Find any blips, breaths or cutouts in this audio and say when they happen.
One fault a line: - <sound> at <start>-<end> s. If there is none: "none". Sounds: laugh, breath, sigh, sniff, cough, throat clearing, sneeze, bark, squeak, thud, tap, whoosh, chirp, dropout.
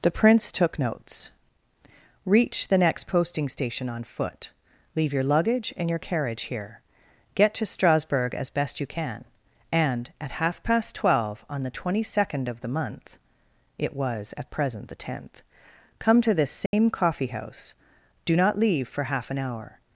- dropout at 16.7-16.7 s